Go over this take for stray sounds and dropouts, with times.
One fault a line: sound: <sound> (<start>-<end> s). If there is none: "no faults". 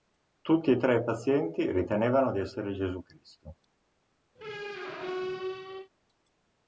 sound: squeak (4.4-5.9 s)